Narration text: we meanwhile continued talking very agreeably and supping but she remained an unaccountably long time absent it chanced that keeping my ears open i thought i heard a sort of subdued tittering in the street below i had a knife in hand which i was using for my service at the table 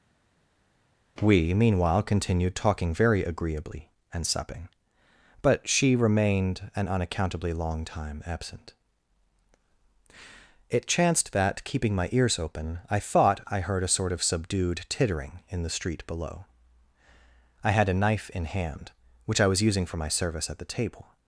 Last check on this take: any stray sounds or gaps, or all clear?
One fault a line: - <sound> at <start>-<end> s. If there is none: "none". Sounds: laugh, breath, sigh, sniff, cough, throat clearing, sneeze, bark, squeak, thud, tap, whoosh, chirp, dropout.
none